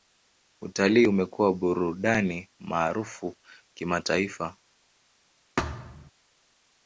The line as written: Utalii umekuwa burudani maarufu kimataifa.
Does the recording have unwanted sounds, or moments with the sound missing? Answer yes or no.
yes